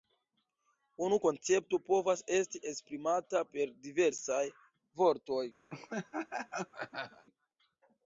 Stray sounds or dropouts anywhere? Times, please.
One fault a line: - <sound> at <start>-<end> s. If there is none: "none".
- laugh at 5.7-7.3 s